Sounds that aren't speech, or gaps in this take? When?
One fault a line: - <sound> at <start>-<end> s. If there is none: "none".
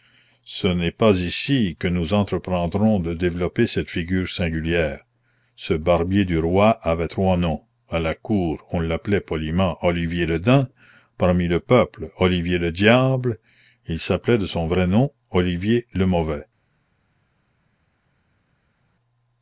none